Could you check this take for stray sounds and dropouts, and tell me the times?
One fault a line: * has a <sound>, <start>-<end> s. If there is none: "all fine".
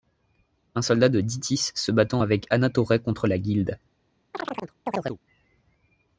* has a chirp, 4.3-5.2 s